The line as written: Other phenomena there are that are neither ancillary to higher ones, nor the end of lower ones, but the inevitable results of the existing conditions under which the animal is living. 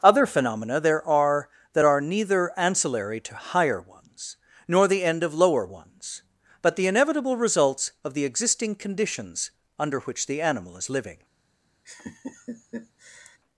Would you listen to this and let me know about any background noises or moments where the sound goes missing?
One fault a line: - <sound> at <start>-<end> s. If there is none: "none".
- laugh at 11.9-13.4 s